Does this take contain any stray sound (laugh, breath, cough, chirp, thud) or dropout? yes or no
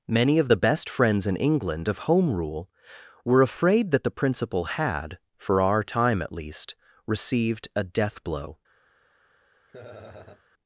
yes